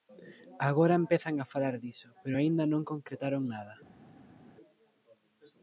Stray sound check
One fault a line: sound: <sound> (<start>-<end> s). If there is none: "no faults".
no faults